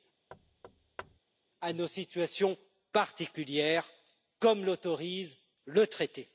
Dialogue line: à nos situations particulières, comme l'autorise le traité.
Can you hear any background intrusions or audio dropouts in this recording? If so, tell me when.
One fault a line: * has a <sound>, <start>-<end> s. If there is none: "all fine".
* has a thud, 0.3-1.2 s